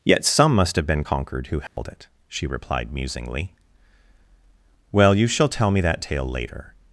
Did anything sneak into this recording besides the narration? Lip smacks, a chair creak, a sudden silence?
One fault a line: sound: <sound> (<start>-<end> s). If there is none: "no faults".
sound: dropout (1.7-1.8 s)